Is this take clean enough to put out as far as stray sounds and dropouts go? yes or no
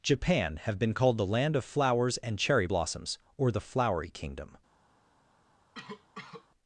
no